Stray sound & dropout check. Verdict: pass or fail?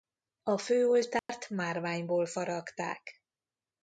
fail